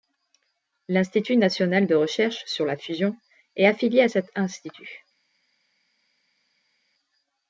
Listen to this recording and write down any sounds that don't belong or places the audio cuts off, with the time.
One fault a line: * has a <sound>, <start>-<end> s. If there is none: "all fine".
all fine